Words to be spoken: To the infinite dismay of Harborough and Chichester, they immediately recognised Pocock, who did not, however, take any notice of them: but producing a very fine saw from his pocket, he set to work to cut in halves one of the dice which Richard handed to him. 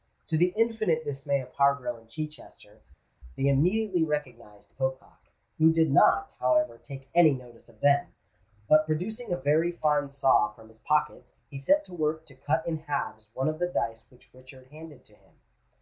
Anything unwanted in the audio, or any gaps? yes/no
no